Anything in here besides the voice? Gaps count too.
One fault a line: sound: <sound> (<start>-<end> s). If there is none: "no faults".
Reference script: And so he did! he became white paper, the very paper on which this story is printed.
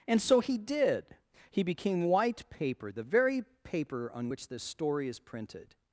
no faults